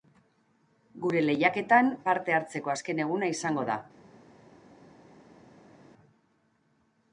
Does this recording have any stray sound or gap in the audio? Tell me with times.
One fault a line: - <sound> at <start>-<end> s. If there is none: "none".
none